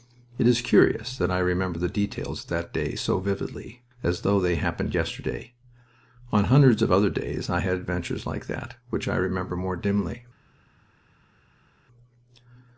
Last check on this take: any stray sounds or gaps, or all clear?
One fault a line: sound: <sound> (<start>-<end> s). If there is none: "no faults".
no faults